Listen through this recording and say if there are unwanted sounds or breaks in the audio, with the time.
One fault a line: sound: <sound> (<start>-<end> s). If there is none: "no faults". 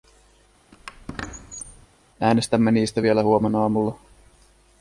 sound: squeak (0.7-1.9 s)